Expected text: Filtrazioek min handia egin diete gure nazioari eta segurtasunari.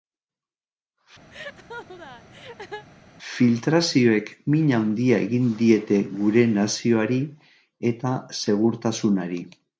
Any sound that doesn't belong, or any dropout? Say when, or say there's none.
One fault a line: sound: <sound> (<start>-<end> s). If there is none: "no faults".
sound: laugh (1.3-2.9 s)